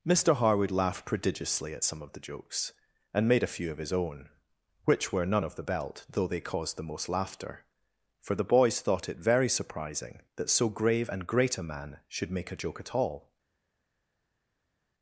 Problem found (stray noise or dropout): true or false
false